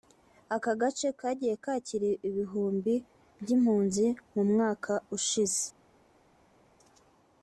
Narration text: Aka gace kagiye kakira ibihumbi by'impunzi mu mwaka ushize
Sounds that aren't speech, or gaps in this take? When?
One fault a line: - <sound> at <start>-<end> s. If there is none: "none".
none